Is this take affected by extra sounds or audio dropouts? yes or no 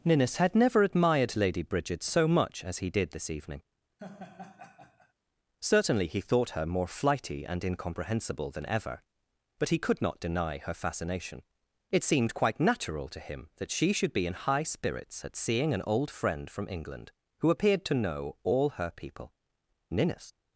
yes